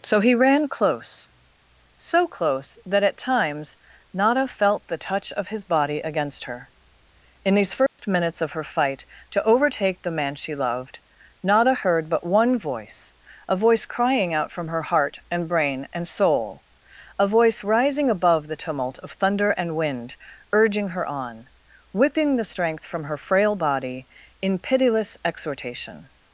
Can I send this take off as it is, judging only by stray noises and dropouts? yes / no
no